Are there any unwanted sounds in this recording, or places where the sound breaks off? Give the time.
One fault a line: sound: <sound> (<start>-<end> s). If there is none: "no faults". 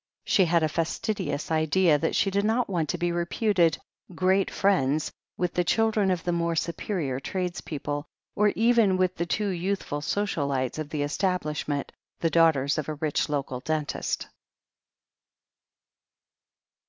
no faults